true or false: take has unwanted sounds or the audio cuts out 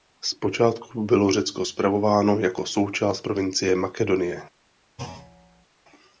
true